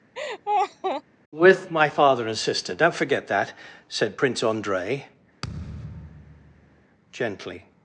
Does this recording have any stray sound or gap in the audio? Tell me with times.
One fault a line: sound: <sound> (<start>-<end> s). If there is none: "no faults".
sound: laugh (0.1-1.0 s)
sound: thud (5.4-6.9 s)